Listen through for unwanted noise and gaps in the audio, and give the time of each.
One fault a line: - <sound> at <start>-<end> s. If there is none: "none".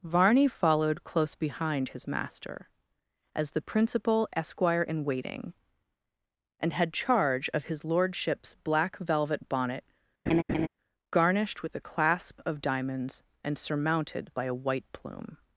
- laugh at 10.3-10.7 s